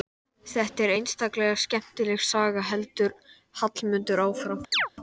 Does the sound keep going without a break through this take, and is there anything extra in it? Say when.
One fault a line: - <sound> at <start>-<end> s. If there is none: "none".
- chirp at 4.7-4.9 s